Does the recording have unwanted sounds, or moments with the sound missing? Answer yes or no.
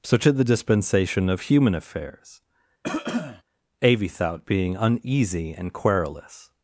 yes